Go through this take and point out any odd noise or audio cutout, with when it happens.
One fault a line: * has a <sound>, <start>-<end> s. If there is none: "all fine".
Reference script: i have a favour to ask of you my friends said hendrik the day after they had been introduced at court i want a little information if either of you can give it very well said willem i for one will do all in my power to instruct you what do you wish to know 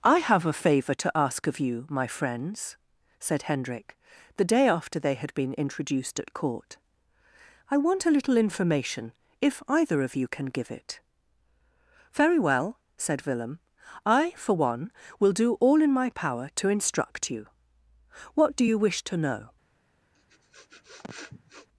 * has a sniff, 20.1-21.7 s